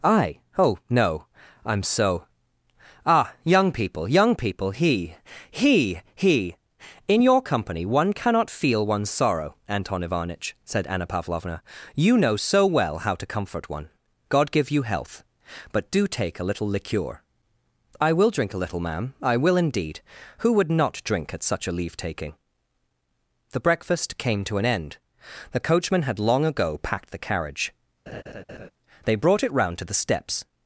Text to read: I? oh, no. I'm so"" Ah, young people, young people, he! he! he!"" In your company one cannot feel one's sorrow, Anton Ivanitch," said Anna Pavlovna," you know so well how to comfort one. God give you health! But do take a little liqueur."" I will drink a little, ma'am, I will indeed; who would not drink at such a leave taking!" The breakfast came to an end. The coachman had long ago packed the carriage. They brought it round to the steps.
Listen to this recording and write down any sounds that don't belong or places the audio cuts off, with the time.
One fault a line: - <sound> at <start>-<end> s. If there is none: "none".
- laugh at 28.1-28.7 s